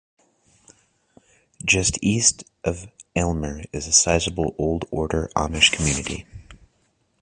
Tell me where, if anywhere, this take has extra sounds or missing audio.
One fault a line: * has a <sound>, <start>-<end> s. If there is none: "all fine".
all fine